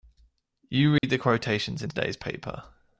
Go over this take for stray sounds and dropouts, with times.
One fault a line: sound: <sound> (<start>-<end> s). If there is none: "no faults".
sound: dropout (1.0-1.0 s)